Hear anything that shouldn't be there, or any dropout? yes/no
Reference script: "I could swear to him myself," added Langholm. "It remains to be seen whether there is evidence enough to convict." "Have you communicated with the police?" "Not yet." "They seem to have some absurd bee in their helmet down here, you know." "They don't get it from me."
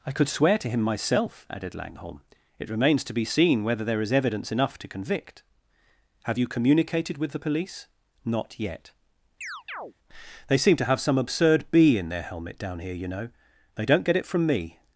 yes